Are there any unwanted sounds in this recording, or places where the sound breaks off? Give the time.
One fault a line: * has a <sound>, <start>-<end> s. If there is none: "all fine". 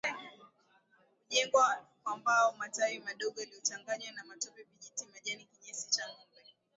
all fine